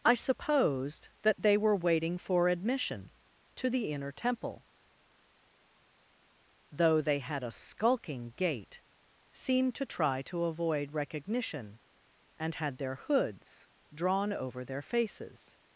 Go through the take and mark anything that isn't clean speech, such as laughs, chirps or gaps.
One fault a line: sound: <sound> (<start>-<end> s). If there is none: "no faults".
no faults